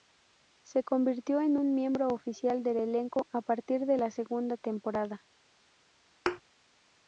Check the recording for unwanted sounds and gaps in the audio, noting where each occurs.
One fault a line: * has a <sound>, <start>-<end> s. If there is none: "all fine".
* has a thud, 6.3-6.4 s